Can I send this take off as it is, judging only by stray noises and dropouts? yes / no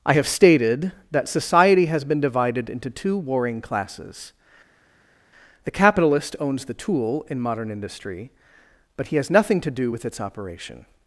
yes